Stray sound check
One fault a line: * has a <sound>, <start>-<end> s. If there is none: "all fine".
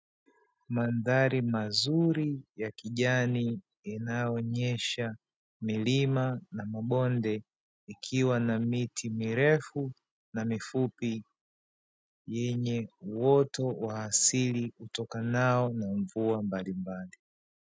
all fine